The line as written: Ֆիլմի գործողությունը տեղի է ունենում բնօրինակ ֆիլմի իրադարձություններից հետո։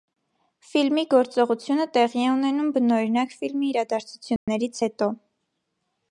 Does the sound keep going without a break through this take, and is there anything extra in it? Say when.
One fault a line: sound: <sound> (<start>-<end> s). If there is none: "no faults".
sound: dropout (4.4-4.5 s)